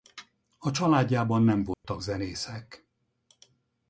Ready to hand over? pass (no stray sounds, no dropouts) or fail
fail